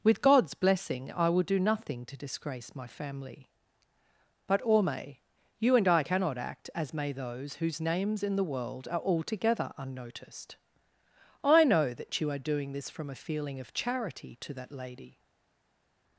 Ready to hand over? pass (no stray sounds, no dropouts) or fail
pass